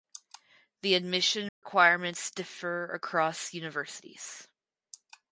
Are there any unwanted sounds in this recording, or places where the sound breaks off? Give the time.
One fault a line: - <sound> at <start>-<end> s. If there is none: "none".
- dropout at 1.5-1.6 s